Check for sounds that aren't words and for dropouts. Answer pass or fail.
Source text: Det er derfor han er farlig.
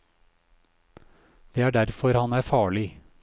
pass